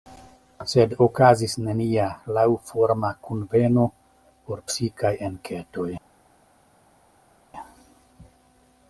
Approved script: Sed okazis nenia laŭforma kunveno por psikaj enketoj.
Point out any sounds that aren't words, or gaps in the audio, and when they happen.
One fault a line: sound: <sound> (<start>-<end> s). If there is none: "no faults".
no faults